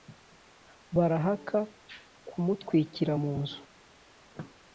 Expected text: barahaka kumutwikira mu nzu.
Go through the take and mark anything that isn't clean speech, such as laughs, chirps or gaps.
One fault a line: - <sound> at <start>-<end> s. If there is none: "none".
none